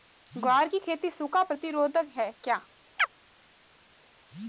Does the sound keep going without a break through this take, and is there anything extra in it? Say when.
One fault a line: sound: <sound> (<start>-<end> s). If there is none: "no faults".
sound: chirp (3.0-3.1 s)